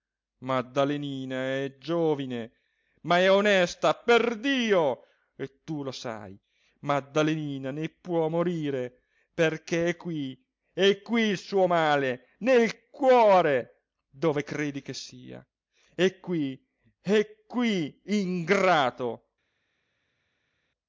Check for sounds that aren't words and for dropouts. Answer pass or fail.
pass